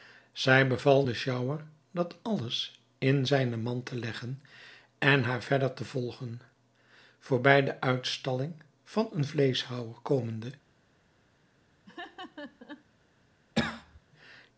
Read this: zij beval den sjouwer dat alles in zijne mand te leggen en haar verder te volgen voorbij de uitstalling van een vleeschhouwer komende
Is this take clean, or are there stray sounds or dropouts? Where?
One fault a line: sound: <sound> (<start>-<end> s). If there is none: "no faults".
sound: laugh (11.9-12.9 s)
sound: cough (13.6-14.0 s)